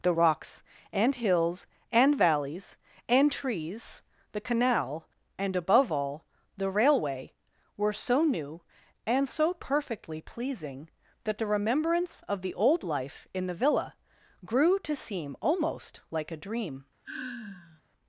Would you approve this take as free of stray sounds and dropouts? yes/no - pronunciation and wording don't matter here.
no